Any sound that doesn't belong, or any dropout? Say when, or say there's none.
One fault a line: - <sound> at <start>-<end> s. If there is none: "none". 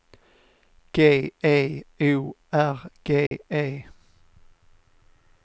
- dropout at 3.3-3.3 s